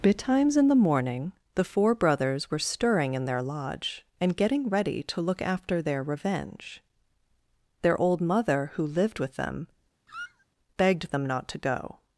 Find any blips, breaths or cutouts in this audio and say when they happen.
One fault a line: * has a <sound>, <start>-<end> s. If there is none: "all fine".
* has a squeak, 10.1-10.5 s